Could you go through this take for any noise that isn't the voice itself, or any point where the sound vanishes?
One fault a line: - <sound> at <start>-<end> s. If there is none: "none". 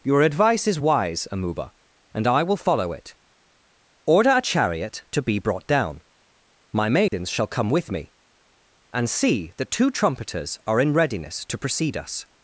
- dropout at 7.1-7.1 s